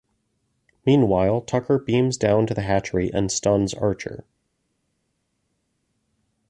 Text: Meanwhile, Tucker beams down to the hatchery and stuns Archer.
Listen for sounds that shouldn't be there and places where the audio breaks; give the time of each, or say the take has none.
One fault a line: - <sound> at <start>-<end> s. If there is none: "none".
none